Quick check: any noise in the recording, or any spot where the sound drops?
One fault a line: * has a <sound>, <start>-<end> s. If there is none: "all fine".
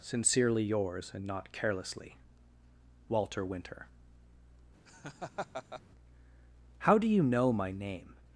* has a laugh, 4.9-5.8 s